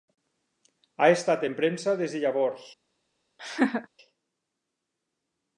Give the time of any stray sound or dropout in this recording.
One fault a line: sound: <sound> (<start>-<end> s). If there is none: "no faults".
sound: laugh (3.4-3.9 s)